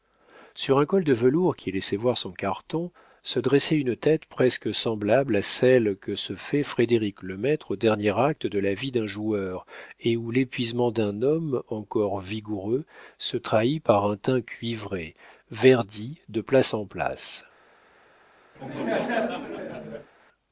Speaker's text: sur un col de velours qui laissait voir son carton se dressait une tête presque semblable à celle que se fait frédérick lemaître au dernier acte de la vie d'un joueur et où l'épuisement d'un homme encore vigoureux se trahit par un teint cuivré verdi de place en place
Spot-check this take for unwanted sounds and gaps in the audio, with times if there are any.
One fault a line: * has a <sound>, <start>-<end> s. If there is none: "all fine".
* has a laugh, 18.6-20.1 s